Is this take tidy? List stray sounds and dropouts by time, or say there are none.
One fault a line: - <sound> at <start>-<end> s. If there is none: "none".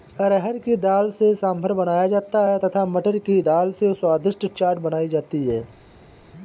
none